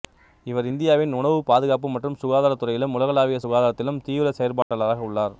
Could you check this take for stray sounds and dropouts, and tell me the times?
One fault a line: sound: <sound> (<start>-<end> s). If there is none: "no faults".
sound: dropout (4.6-4.7 s)